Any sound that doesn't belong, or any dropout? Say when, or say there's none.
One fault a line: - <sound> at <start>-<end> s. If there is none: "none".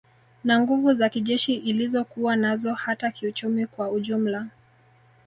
none